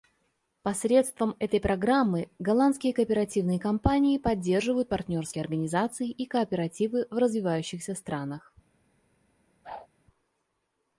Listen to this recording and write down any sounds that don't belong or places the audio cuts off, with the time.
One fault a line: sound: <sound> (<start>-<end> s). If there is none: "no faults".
sound: whoosh (9.6-9.9 s)